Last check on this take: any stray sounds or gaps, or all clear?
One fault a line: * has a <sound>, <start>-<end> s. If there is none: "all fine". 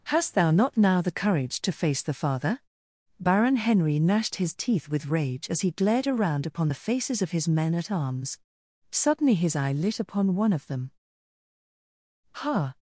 all fine